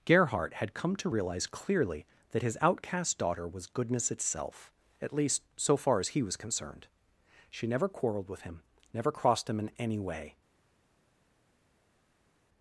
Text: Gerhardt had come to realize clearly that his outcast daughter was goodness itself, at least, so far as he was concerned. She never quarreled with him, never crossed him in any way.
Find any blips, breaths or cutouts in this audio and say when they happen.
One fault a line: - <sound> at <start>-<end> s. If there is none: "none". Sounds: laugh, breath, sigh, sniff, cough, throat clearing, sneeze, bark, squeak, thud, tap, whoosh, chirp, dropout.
none